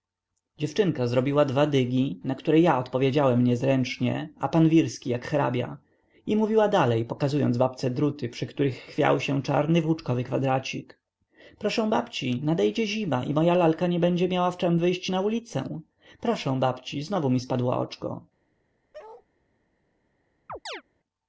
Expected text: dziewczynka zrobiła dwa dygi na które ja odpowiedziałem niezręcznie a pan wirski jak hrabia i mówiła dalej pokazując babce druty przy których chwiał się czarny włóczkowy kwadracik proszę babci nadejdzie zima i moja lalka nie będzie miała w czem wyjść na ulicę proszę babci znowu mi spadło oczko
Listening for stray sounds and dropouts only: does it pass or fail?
fail